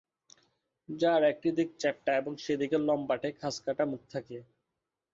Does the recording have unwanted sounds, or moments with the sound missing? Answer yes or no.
no